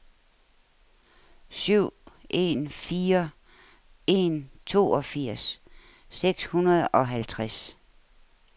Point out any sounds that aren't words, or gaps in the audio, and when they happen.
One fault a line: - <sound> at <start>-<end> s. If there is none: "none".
none